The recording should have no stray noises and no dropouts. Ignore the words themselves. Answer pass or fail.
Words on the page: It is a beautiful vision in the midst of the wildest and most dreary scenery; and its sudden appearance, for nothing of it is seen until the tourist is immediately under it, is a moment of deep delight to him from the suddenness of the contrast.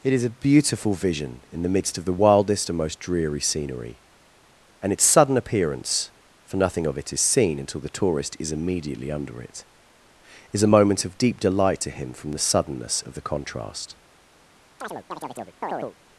fail